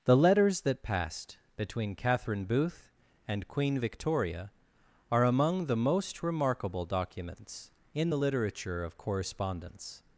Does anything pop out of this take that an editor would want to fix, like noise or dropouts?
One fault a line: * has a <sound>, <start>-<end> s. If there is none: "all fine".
all fine